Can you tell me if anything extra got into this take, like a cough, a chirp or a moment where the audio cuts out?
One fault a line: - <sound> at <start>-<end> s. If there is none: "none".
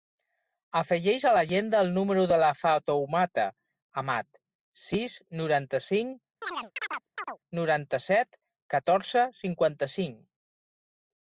- chirp at 6.4-7.4 s